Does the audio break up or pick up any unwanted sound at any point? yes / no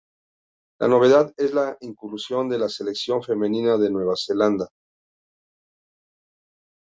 no